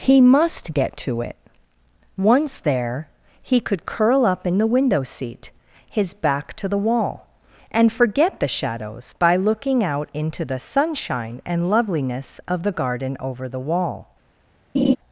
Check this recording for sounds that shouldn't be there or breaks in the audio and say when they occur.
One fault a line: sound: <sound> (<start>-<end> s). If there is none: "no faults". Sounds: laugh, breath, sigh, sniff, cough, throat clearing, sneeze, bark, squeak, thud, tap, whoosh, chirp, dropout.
sound: laugh (14.7-15.0 s)